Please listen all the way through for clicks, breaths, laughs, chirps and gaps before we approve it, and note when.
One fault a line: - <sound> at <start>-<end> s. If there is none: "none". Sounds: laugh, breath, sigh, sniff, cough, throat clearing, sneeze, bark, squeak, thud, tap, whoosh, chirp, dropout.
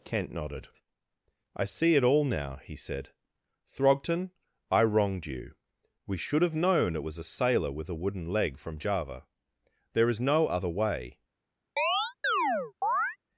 - chirp at 11.8-13.2 s